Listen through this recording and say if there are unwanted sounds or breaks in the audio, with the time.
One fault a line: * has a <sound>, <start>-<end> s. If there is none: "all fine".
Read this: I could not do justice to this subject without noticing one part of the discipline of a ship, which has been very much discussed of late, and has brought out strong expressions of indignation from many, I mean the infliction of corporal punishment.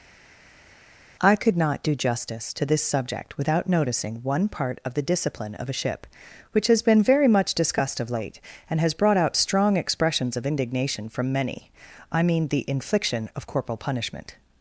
all fine